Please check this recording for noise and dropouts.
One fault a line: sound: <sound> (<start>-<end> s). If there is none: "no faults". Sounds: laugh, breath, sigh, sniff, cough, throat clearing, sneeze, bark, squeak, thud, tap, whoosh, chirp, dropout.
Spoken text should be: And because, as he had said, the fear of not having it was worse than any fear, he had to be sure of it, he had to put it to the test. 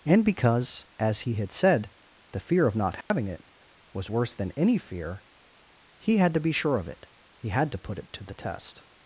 sound: dropout (3.0-3.1 s)